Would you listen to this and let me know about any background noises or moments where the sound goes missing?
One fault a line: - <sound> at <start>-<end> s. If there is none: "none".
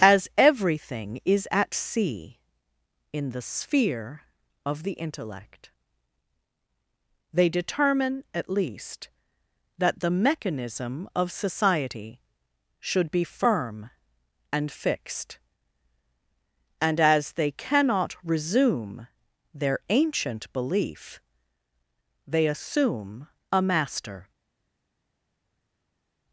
none